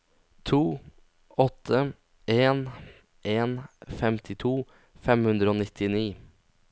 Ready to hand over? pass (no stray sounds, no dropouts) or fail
pass